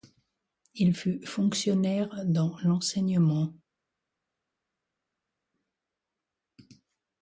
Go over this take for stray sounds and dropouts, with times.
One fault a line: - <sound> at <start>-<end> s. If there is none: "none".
none